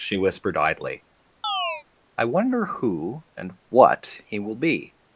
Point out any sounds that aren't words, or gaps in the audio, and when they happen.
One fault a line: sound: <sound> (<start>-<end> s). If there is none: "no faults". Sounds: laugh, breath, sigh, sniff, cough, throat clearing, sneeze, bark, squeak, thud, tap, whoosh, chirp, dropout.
sound: chirp (1.4-1.8 s)